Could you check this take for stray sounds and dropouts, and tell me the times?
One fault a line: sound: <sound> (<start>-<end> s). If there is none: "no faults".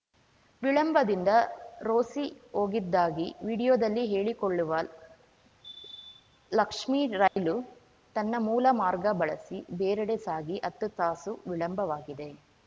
sound: dropout (7.3-7.4 s)